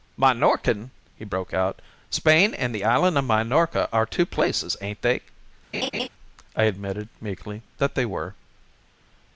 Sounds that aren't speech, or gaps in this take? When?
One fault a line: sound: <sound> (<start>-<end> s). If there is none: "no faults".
sound: laugh (5.7-6.1 s)